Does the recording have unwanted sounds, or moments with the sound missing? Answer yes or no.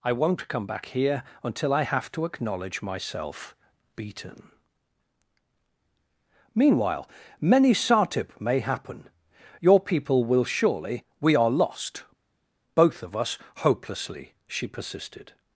no